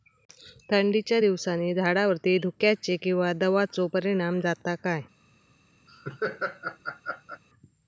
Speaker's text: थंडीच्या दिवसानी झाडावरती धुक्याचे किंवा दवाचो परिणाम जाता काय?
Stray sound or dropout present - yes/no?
yes